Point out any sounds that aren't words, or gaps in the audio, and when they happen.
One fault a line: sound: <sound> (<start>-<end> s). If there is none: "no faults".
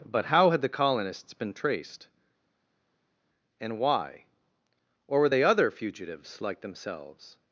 no faults